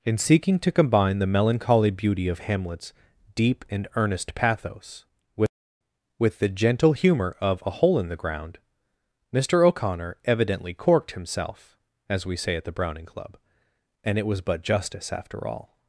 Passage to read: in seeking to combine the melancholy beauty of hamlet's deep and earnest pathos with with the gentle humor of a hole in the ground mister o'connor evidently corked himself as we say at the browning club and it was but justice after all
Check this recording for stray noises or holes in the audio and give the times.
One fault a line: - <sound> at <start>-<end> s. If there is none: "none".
none